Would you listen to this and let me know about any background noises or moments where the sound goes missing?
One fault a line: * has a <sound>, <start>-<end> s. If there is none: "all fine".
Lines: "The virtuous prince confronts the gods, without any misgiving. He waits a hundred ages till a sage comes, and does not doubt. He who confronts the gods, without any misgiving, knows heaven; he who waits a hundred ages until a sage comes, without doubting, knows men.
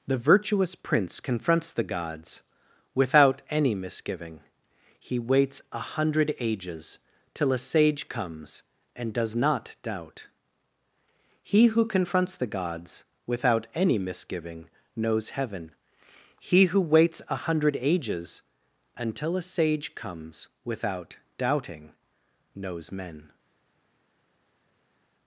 all fine